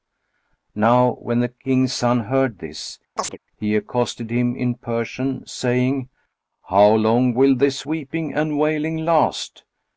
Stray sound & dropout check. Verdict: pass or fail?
fail